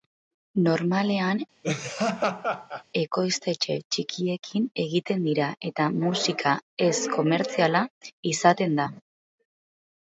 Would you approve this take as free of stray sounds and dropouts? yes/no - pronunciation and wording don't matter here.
no